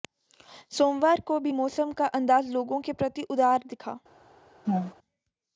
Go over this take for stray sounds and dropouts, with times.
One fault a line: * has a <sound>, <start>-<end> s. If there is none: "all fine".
* has a laugh, 4.6-4.9 s